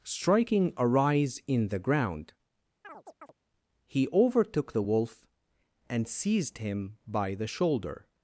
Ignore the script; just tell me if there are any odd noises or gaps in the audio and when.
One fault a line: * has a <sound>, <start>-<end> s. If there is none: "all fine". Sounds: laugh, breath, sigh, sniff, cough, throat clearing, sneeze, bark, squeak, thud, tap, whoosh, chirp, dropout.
* has a chirp, 2.8-3.3 s